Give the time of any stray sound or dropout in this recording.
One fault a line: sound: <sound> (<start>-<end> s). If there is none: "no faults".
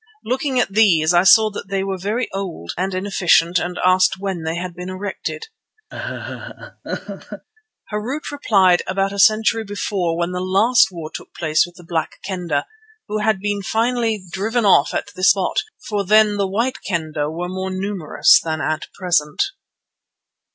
sound: laugh (5.9-7.5 s)